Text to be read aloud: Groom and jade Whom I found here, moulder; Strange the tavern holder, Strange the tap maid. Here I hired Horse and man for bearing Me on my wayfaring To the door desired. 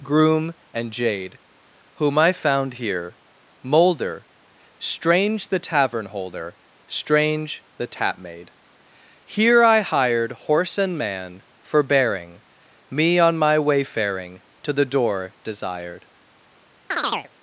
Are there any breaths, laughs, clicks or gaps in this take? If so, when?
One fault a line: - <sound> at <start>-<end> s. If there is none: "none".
- chirp at 16.9-17.3 s